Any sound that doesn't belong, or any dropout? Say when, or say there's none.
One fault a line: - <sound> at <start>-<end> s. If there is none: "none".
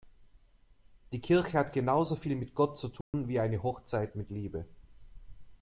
- dropout at 3.0-3.1 s